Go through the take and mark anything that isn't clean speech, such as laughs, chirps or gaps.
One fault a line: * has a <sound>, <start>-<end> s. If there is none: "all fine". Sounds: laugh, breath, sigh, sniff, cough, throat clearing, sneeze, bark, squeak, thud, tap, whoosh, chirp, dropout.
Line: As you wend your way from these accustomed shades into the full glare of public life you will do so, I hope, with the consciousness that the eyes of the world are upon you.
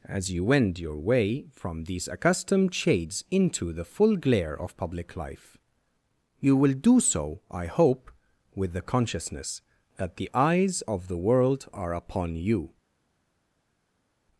all fine